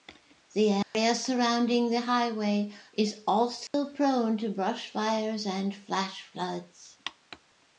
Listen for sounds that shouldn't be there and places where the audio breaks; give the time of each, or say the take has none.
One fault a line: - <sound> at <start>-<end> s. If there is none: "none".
- dropout at 0.8-0.9 s
- dropout at 3.7-3.7 s